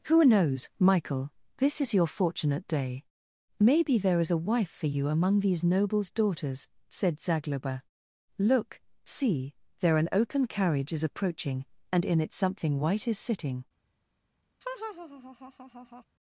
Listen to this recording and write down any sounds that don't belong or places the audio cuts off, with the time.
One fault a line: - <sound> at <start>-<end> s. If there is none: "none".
- laugh at 14.6-16.0 s